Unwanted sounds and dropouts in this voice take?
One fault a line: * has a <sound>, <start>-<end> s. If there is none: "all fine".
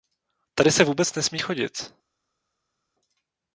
all fine